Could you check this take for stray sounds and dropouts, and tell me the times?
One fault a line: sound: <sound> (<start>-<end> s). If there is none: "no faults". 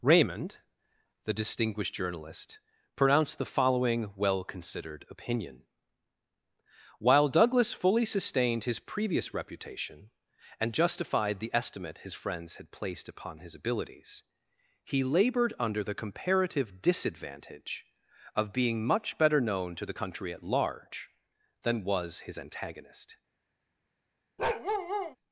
sound: bark (24.4-25.2 s)